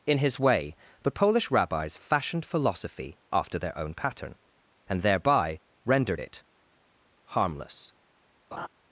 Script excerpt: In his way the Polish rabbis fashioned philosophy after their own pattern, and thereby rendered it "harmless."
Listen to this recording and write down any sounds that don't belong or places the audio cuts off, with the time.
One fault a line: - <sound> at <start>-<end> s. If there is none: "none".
- laugh at 8.5-8.7 s